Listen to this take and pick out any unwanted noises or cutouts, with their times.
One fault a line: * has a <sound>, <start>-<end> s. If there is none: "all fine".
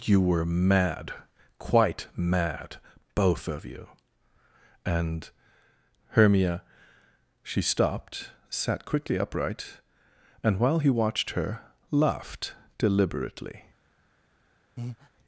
* has a breath, 14.8-15.1 s